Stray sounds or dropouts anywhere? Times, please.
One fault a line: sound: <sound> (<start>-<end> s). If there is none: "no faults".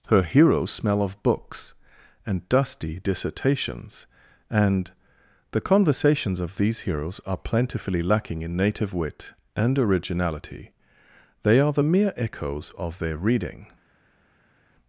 no faults